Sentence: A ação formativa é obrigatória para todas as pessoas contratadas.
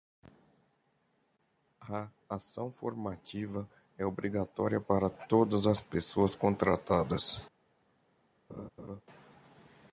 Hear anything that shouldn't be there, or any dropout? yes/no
yes